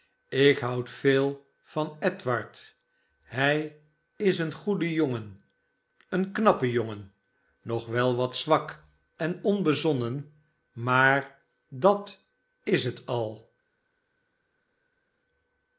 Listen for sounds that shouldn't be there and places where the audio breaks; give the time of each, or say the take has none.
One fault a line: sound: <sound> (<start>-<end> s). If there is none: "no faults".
no faults